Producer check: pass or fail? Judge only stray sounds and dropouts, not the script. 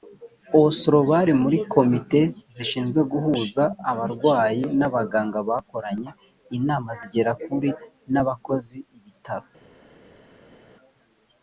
pass